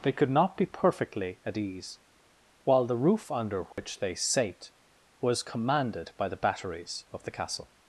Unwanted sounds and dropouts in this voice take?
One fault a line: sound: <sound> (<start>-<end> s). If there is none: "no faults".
sound: dropout (3.7-3.8 s)